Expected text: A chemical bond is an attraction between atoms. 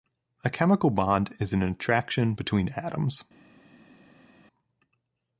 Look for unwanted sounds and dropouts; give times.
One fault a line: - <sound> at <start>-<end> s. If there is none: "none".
none